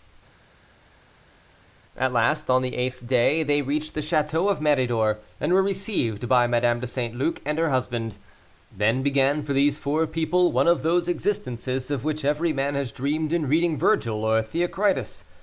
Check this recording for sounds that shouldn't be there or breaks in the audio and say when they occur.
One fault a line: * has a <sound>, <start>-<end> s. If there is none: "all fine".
all fine